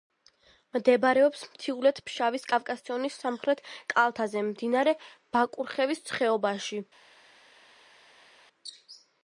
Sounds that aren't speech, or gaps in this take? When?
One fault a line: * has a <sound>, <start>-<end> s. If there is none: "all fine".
all fine